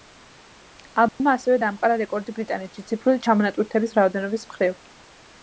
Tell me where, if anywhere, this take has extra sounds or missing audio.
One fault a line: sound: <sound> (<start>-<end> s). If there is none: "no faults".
sound: dropout (1.1-1.2 s)